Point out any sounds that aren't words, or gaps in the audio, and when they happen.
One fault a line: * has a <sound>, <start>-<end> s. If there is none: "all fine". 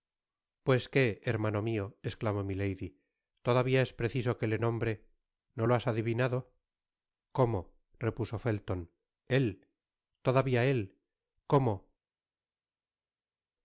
all fine